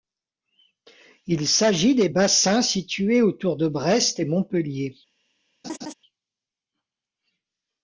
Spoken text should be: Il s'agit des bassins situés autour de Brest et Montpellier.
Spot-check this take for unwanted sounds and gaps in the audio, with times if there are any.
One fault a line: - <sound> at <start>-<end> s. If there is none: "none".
- laugh at 5.6-5.9 s